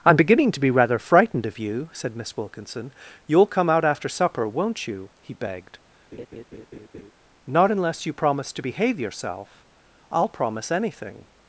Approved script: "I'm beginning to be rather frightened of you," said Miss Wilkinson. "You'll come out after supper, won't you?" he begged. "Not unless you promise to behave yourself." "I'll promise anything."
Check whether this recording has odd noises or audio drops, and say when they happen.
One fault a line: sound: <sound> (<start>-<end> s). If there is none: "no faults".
sound: laugh (6.1-7.1 s)